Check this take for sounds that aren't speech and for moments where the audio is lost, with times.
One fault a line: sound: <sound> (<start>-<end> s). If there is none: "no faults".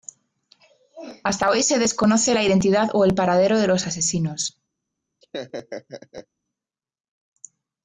sound: laugh (5.2-6.3 s)